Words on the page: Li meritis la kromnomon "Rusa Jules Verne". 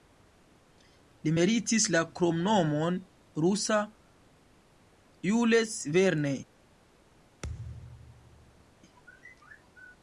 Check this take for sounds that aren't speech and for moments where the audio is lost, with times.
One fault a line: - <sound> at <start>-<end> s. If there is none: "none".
- thud at 7.4-8.7 s